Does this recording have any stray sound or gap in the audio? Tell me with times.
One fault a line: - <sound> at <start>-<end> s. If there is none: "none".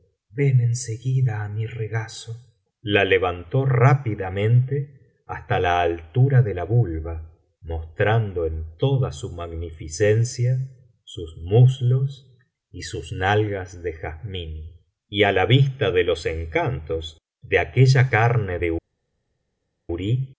none